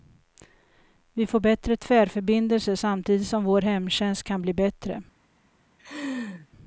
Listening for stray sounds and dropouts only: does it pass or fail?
fail